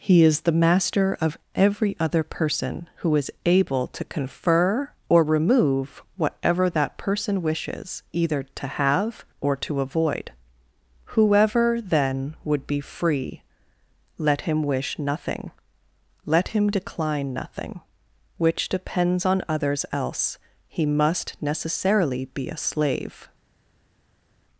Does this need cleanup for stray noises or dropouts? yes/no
no